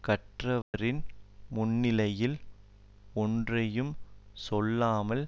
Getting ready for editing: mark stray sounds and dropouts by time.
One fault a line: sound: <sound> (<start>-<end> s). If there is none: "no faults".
sound: dropout (0.6-0.7 s)